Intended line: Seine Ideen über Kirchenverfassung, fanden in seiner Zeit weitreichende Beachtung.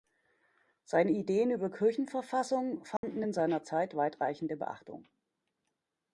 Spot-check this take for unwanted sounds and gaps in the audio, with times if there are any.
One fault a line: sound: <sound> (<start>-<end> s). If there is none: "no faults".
sound: dropout (3.0-3.0 s)